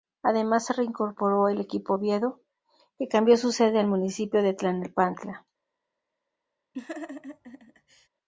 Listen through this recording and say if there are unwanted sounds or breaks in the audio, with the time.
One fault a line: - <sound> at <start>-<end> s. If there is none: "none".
- laugh at 6.7-8.1 s